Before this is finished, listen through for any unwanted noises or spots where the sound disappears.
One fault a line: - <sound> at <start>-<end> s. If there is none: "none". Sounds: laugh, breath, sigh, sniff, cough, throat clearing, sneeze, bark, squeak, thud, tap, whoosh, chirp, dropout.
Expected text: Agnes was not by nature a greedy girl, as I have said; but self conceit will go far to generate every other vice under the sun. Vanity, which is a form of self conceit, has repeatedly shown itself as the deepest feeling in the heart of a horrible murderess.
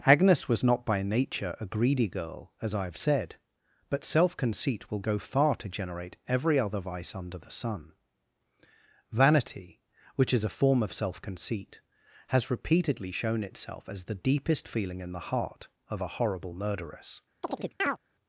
- chirp at 17.4-18.0 s